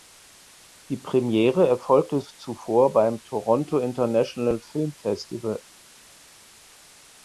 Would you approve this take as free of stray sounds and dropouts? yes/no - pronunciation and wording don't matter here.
yes